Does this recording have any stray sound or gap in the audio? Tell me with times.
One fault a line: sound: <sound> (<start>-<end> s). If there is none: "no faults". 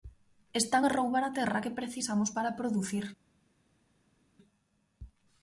no faults